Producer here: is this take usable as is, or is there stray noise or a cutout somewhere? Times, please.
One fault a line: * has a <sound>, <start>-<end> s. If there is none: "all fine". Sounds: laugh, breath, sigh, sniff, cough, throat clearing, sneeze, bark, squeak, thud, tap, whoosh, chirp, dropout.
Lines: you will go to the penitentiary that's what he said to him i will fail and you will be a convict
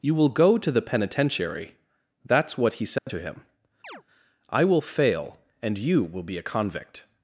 * has a dropout, 3.0-3.1 s
* has a chirp, 3.8-4.0 s